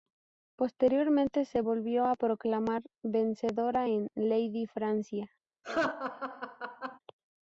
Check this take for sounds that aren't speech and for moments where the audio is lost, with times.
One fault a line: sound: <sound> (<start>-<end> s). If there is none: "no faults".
sound: laugh (5.6-7.0 s)